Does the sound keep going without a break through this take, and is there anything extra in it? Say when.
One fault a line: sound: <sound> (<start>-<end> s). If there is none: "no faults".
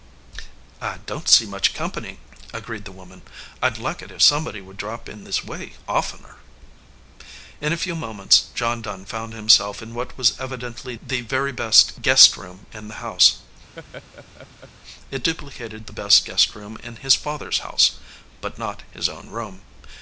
sound: laugh (13.8-14.7 s)